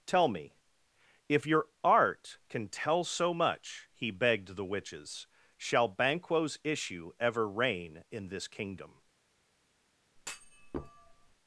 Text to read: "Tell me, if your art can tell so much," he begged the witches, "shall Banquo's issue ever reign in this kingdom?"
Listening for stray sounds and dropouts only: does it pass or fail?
fail